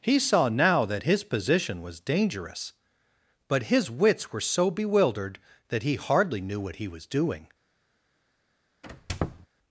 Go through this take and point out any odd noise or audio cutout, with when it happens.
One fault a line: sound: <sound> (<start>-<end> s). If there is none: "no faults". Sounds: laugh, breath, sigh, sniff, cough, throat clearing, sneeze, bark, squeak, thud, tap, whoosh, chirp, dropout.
sound: squeak (8.8-9.5 s)